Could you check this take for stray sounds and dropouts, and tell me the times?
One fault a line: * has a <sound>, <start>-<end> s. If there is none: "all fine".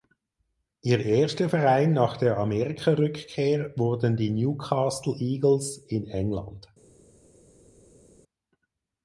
all fine